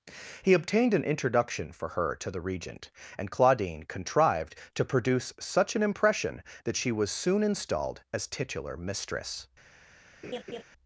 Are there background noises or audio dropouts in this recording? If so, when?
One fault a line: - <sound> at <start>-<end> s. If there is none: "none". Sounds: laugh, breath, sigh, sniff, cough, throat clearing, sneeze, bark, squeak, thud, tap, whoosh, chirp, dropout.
- laugh at 10.2-10.6 s